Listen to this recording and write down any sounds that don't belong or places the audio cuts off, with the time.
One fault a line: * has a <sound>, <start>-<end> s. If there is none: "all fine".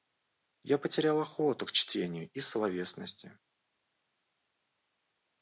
all fine